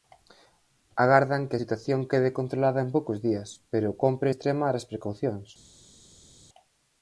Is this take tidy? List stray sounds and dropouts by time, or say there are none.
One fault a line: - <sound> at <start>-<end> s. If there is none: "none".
none